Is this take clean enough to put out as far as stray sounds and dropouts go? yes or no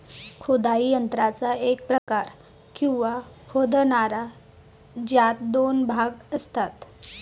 no